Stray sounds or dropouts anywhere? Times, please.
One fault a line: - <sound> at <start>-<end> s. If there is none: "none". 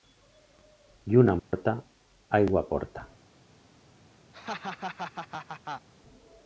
- dropout at 1.4-1.5 s
- laugh at 4.3-5.9 s